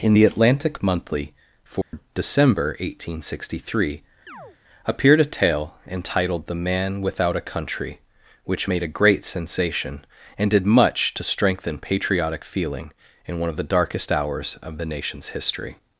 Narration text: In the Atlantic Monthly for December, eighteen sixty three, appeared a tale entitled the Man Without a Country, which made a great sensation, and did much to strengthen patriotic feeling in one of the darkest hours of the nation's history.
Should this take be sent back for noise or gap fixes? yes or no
yes